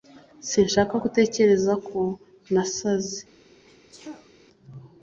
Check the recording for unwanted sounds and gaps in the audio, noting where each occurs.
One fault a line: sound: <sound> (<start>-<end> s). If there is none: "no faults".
sound: sneeze (3.6-4.3 s)